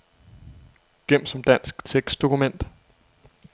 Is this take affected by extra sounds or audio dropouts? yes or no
no